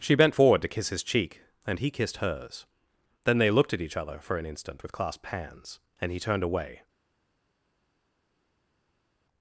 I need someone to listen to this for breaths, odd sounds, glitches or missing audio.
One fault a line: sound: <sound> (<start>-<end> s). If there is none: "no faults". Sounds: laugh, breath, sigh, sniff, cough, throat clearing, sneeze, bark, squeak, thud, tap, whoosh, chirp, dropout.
no faults